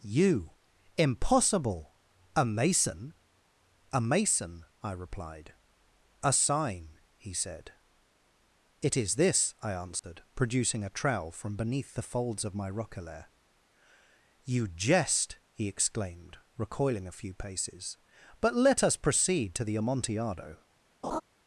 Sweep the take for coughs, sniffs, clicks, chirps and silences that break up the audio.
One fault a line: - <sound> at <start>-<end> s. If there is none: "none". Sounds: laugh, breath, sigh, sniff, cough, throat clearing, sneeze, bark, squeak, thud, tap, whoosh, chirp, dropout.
- dropout at 10.0-10.0 s
- laugh at 21.0-21.2 s